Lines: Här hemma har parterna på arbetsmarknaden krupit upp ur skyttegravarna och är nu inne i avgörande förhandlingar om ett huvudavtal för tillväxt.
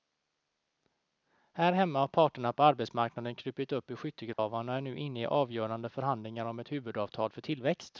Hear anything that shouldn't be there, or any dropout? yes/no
yes